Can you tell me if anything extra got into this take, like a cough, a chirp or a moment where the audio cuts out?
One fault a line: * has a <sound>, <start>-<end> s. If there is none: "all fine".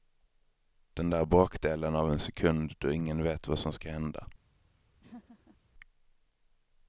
* has a laugh, 5.0-5.6 s